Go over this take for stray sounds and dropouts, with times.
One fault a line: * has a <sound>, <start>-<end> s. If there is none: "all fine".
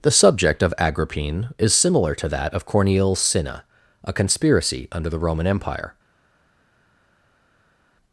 all fine